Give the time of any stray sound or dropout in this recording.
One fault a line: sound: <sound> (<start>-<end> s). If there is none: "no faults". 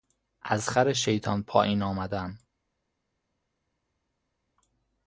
no faults